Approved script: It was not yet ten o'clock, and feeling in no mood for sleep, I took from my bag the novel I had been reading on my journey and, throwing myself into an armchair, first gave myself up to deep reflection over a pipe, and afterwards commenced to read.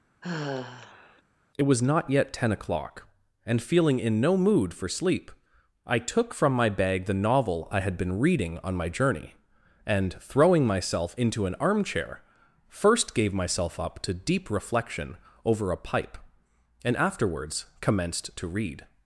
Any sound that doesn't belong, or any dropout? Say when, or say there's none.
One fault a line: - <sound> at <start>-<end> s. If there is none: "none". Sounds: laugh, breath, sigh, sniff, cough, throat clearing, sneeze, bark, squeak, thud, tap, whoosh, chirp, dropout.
- sigh at 0.2-1.2 s